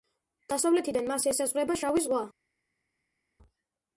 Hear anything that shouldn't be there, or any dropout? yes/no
no